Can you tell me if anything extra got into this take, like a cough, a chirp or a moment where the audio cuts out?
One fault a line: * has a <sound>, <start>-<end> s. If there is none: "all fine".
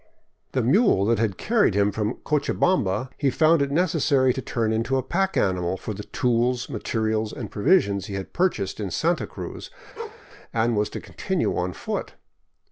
* has a bark, 10.0-10.3 s